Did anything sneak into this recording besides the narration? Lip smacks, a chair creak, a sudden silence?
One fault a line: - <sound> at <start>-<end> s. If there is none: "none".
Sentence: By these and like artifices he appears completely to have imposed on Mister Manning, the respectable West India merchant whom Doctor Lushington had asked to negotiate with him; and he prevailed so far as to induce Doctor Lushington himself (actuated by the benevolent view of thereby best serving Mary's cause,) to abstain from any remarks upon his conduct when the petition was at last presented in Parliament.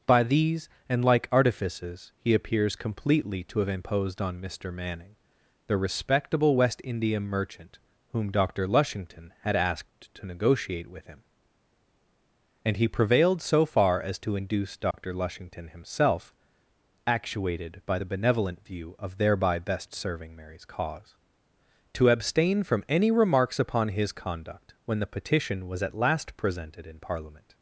- dropout at 14.9-14.9 s